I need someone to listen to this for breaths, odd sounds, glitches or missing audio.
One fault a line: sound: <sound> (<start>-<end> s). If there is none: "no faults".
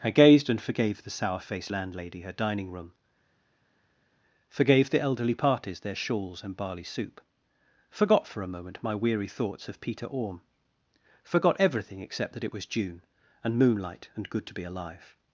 no faults